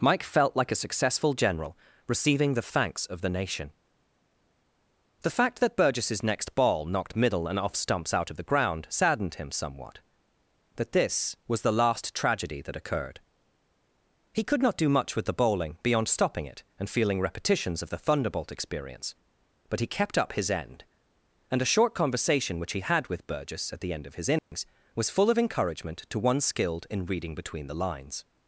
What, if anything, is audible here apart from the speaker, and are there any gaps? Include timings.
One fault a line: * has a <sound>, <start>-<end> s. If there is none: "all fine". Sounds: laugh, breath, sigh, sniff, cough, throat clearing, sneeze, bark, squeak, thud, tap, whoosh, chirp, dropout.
* has a dropout, 24.4-24.5 s